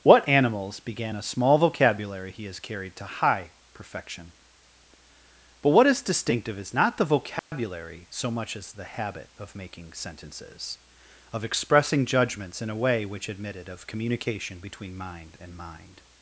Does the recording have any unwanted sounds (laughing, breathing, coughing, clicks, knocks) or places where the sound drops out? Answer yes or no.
yes